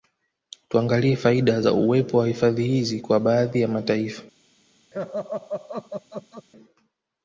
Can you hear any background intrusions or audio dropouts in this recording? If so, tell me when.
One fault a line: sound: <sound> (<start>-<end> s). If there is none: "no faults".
sound: laugh (4.9-6.5 s)